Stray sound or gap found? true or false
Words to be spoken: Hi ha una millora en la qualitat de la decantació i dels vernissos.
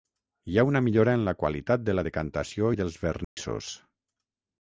true